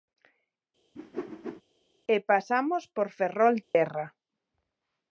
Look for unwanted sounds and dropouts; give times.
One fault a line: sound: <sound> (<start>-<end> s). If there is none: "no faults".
sound: whoosh (1.0-1.6 s)
sound: dropout (3.6-3.7 s)